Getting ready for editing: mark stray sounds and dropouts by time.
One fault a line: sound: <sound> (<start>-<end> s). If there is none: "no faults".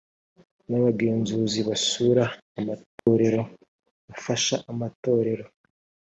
sound: dropout (3.0-3.1 s)